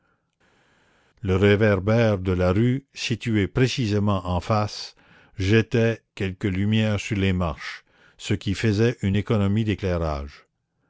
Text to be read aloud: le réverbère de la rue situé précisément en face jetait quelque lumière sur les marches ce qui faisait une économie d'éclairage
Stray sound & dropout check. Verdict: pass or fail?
pass